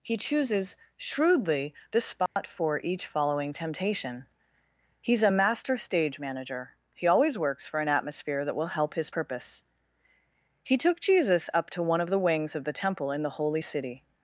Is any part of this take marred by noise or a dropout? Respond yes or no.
yes